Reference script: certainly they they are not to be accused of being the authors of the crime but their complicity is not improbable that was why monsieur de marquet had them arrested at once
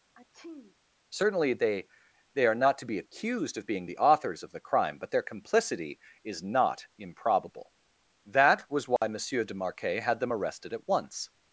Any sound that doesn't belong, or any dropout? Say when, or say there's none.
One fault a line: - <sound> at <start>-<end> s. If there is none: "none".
- sneeze at 0.2-0.8 s
- dropout at 9.0-9.0 s